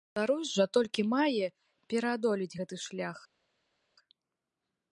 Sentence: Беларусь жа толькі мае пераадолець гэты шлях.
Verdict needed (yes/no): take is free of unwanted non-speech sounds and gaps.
yes